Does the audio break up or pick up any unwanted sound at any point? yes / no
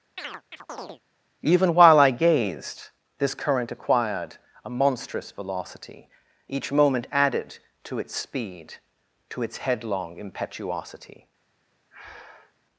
yes